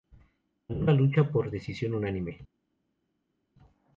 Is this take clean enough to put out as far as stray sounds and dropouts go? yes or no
yes